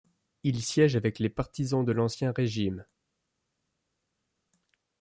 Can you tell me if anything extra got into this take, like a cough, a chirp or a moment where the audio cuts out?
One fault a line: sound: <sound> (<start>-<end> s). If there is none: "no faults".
no faults